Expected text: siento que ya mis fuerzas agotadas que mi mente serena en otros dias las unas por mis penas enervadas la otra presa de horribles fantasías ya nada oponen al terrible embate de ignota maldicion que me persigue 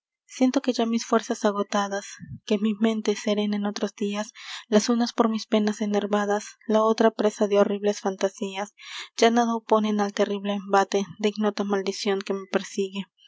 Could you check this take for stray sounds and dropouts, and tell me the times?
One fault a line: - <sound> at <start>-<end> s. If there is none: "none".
none